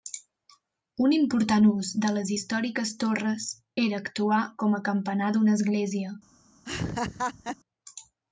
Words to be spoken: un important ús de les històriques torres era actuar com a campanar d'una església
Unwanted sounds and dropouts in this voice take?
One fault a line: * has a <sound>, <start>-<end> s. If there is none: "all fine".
* has a laugh, 6.7-7.6 s